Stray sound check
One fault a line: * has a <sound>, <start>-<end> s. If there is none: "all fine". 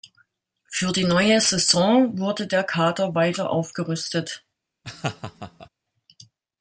* has a laugh, 4.8-5.7 s